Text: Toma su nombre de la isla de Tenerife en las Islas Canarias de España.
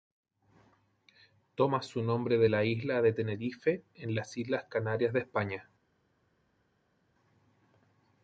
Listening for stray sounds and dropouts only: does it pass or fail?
pass